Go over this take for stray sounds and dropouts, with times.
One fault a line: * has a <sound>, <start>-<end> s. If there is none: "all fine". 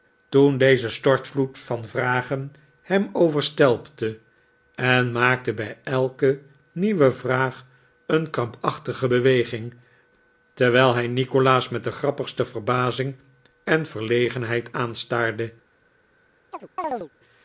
* has a chirp, 16.5-17.1 s